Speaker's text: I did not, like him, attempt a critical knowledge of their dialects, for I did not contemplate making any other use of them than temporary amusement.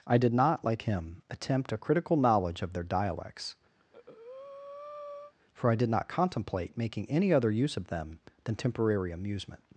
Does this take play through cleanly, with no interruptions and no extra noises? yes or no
no